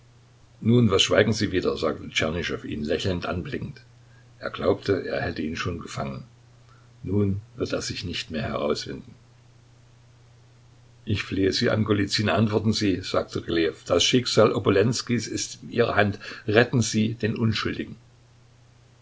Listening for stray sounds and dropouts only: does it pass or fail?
pass